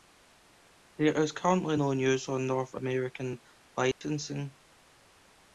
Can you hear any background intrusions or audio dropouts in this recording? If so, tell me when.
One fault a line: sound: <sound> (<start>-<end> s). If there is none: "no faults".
sound: dropout (3.9-4.0 s)